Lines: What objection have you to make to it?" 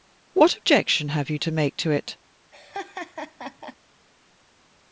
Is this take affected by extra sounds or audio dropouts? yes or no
yes